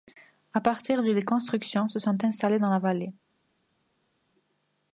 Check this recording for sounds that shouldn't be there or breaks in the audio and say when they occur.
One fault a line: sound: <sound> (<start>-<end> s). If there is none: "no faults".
no faults